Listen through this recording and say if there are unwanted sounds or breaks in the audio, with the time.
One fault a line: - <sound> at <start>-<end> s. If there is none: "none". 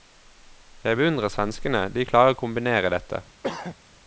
- throat clearing at 3.4-3.8 s